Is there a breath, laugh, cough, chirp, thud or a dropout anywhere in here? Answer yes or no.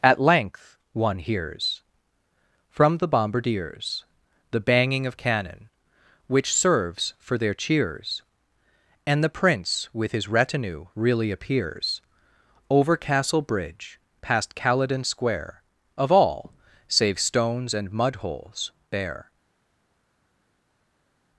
no